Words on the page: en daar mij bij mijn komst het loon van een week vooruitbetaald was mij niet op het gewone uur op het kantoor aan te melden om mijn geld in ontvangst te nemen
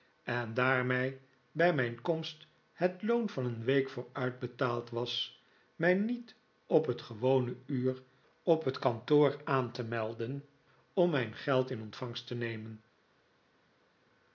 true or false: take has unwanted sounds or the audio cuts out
false